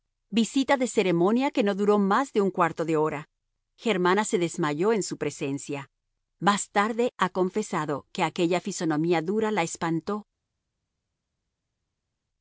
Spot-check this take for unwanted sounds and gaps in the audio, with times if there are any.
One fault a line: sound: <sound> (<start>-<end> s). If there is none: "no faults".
no faults